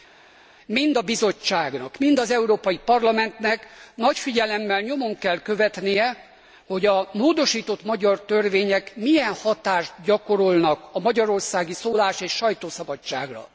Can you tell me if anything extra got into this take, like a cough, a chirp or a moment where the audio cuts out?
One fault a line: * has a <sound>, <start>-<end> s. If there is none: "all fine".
all fine